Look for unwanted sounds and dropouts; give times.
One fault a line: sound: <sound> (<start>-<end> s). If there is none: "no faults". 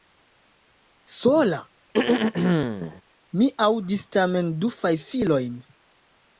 sound: throat clearing (1.9-3.0 s)